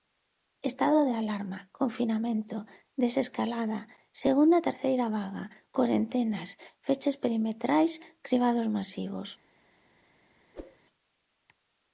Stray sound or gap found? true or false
true